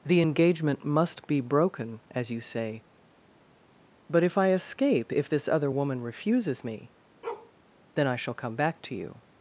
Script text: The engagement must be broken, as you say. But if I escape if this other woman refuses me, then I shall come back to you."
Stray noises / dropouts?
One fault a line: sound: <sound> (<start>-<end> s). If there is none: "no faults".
sound: bark (7.2-7.5 s)